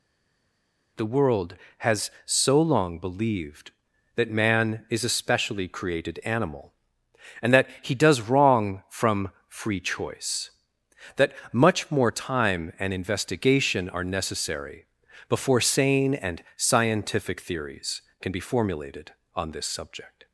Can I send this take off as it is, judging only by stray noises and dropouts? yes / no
yes